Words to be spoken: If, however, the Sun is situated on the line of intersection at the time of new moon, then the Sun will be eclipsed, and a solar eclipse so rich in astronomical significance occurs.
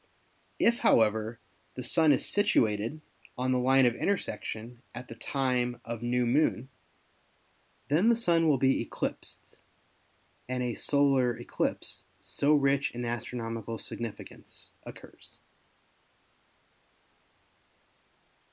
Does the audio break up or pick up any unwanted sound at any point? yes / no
no